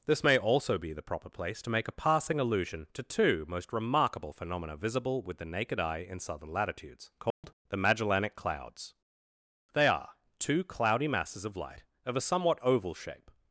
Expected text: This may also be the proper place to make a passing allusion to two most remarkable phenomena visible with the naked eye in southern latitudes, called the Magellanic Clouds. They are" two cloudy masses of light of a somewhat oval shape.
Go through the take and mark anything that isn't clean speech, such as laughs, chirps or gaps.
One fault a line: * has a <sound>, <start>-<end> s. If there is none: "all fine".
* has a dropout, 7.3-7.4 s